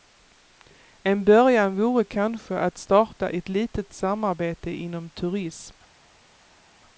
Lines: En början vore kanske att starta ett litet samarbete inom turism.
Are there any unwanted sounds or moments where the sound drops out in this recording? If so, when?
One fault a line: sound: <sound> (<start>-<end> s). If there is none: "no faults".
no faults